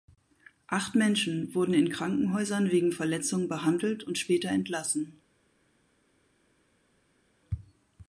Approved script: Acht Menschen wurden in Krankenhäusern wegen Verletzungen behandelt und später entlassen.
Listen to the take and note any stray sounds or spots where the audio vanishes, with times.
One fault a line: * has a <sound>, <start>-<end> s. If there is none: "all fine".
all fine